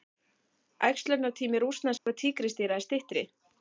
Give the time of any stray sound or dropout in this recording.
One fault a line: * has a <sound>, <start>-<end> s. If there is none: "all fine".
* has a dropout, 2.0-2.1 s